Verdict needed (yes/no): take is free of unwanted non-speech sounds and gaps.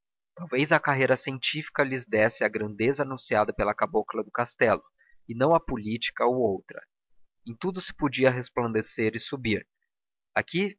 yes